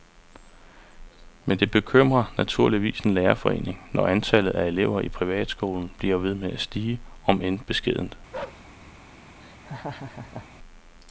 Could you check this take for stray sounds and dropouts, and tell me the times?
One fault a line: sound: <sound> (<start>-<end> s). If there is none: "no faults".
sound: bark (8.3-8.7 s)
sound: laugh (9.4-10.5 s)